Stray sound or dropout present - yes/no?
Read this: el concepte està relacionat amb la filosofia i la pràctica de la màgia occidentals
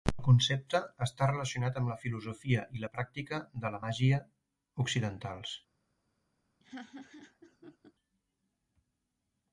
yes